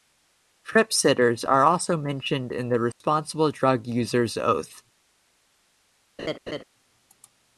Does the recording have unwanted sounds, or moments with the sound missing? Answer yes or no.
yes